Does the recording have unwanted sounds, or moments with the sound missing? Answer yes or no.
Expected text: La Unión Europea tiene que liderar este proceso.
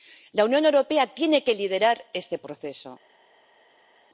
no